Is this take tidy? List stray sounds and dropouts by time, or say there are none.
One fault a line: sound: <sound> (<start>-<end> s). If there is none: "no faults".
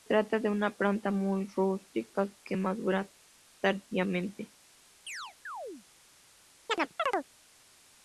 sound: chirp (5.1-5.9 s)
sound: chirp (6.7-7.3 s)